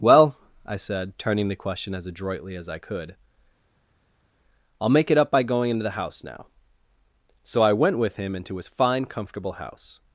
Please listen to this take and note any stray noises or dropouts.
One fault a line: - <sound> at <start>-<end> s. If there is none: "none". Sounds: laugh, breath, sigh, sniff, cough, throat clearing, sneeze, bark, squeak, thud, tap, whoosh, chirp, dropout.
none